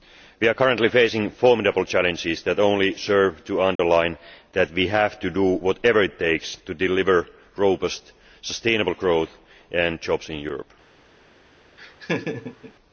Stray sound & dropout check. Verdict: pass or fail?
fail